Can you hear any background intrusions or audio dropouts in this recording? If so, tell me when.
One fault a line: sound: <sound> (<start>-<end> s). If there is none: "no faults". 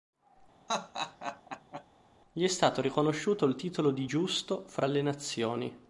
sound: laugh (0.7-1.8 s)